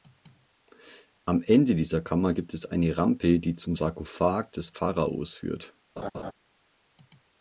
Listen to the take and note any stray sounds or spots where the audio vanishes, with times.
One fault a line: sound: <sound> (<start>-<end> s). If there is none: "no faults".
sound: laugh (6.0-6.3 s)